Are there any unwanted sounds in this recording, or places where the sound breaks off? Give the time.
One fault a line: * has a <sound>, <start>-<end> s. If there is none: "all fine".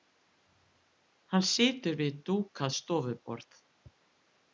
all fine